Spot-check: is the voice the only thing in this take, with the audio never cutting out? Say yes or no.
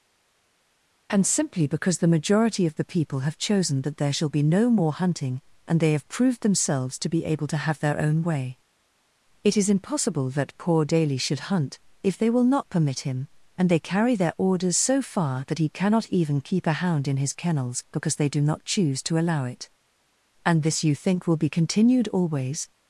yes